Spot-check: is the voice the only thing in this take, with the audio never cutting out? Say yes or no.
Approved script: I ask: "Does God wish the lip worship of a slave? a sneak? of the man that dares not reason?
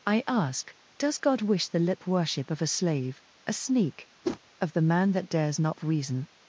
no